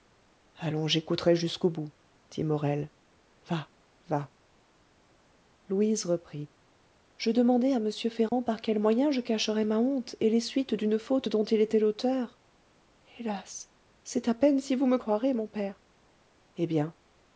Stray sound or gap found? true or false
true